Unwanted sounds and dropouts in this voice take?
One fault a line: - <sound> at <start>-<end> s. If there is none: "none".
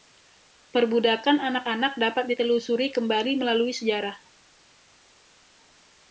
none